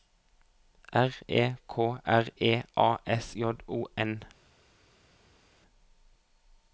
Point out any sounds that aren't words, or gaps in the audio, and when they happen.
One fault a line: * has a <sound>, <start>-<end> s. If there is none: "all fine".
all fine